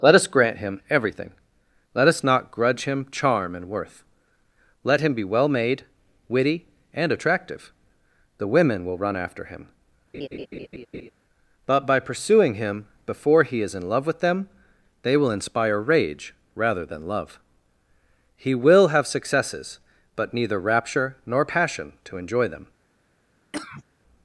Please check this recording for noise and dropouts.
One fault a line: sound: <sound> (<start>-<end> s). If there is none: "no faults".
sound: laugh (10.1-11.1 s)
sound: cough (23.5-23.8 s)